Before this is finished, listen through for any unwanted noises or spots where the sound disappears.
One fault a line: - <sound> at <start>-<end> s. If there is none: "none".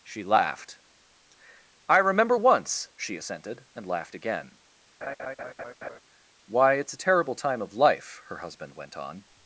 - laugh at 5.0-6.0 s